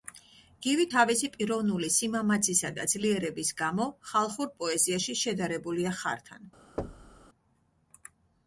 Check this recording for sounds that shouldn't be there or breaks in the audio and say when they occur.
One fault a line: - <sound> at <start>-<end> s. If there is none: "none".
- thud at 6.8-7.3 s